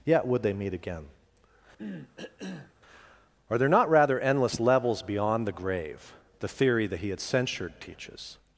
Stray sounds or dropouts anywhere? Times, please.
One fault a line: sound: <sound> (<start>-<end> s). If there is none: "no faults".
sound: cough (1.8-2.7 s)